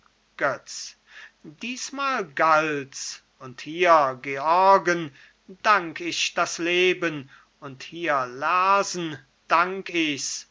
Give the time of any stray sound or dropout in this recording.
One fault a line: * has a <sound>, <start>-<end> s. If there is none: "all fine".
all fine